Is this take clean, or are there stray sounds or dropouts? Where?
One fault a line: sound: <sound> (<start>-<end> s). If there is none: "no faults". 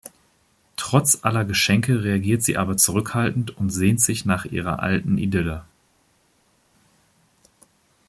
no faults